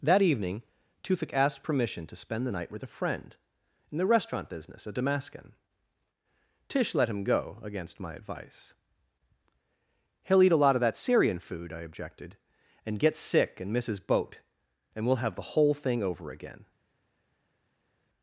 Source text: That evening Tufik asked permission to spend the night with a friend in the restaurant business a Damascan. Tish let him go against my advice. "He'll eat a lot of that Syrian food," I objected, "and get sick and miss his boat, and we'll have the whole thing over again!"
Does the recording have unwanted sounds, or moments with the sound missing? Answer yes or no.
no